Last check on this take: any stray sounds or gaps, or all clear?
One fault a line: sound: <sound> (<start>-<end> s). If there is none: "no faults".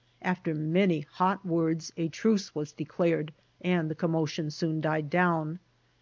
no faults